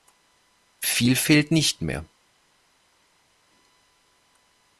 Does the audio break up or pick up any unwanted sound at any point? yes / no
no